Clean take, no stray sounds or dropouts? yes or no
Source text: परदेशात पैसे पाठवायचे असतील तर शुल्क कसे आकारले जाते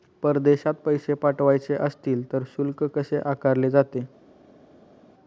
yes